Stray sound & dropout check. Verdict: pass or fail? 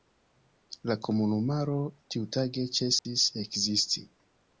fail